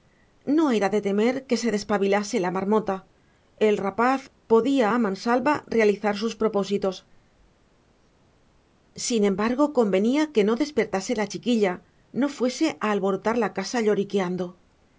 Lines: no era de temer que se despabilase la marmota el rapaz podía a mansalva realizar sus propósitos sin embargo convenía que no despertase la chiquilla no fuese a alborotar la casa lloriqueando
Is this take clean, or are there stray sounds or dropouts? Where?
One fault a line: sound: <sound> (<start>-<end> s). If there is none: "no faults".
no faults